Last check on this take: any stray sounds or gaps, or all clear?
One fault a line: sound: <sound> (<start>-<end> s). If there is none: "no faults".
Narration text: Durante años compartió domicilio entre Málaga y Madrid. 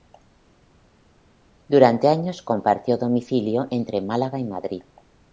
no faults